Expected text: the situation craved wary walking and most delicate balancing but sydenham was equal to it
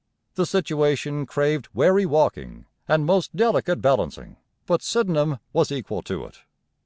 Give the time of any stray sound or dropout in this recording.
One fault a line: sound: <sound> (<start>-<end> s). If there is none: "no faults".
no faults